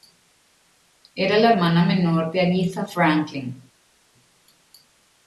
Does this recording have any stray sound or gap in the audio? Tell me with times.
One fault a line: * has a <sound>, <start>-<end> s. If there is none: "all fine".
all fine